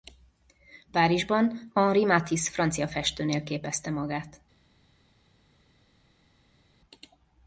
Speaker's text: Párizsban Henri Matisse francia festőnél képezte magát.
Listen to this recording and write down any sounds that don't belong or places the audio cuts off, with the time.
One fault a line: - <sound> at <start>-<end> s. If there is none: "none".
none